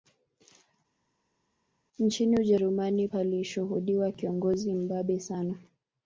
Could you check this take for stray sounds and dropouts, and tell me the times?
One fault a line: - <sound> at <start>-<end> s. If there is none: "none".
none